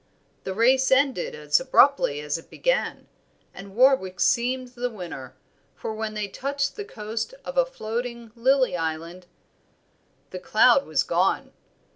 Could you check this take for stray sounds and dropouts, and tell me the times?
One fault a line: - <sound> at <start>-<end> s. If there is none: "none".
none